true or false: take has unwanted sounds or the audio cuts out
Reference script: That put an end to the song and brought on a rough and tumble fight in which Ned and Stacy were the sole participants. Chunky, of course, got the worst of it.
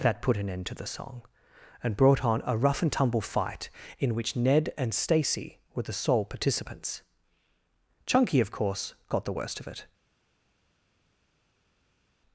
false